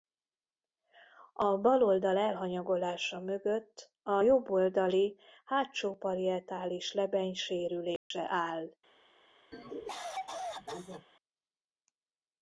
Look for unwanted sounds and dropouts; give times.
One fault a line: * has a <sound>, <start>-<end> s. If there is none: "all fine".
* has a dropout, 8.0-8.1 s
* has a cough, 9.5-11.1 s